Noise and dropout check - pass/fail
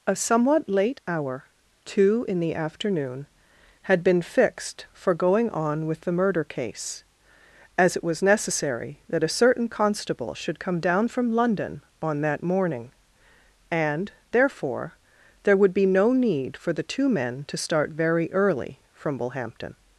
pass